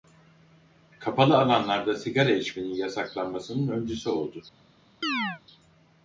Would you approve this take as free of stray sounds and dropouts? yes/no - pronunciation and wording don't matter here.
no